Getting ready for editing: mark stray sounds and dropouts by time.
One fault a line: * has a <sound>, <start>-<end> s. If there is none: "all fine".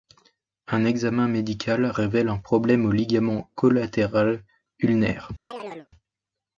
* has a chirp, 5.5-5.9 s